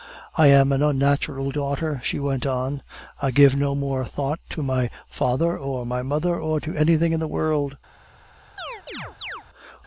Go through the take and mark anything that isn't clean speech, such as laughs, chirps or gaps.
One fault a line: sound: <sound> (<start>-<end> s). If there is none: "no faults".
sound: chirp (8.6-9.4 s)